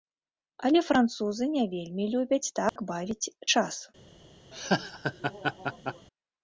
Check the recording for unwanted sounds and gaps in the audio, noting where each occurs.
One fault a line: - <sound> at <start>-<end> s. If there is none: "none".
- dropout at 2.7-2.8 s
- laugh at 4.5-6.1 s